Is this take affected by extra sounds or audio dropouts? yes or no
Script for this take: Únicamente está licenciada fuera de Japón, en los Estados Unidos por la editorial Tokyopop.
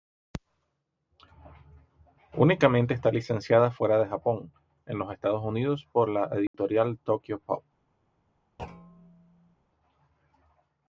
yes